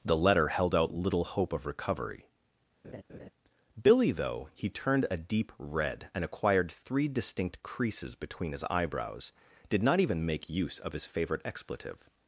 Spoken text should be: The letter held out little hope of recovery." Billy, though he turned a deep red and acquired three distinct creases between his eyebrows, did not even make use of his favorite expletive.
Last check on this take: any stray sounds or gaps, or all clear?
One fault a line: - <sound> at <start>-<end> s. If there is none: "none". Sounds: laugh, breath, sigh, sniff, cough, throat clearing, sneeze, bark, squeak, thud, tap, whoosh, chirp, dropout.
- laugh at 2.8-3.3 s